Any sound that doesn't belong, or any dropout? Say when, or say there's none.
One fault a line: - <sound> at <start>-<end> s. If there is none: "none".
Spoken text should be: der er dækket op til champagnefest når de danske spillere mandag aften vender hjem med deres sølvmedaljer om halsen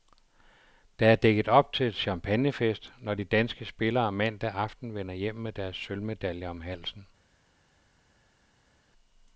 none